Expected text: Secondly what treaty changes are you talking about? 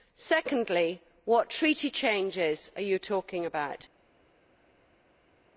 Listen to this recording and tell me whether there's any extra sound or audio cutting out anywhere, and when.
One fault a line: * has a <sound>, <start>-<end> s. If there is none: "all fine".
all fine